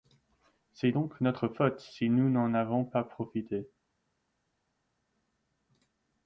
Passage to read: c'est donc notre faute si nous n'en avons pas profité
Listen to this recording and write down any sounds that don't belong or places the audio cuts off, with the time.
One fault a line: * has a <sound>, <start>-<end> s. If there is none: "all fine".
all fine